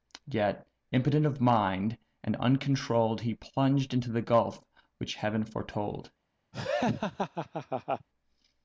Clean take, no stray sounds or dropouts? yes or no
no